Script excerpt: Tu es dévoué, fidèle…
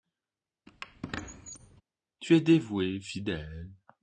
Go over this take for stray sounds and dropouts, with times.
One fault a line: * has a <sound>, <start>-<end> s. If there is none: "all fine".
* has a squeak, 0.7-1.8 s